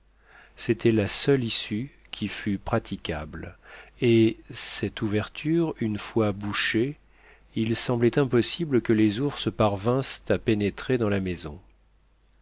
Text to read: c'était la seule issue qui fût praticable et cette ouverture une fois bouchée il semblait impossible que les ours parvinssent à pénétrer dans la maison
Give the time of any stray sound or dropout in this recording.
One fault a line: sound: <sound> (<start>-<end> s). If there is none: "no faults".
no faults